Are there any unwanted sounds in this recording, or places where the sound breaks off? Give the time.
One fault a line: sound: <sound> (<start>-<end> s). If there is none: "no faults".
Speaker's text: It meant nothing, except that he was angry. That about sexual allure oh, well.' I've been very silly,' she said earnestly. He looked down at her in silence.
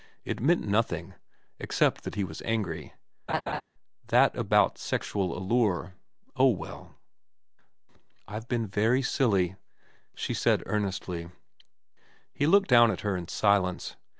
sound: laugh (3.3-3.6 s)